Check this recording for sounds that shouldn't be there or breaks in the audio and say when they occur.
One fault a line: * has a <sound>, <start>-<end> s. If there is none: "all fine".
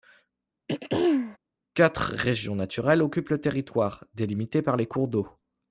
* has a throat clearing, 0.7-1.4 s